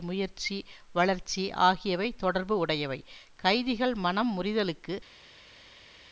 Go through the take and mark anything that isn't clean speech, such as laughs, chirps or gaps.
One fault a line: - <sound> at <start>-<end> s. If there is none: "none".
none